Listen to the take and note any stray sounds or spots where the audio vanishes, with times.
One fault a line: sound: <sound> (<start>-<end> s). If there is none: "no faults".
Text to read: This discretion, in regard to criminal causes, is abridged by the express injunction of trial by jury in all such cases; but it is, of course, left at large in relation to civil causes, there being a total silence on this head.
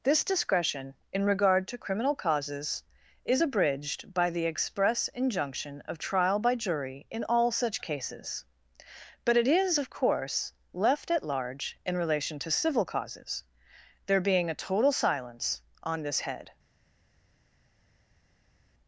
no faults